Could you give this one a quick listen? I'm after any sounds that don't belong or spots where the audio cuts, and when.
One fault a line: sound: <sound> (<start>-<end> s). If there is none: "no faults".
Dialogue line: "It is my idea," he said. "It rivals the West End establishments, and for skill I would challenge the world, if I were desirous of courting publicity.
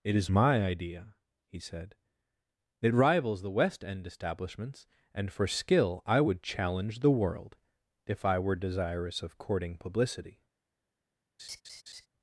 sound: laugh (11.4-12.1 s)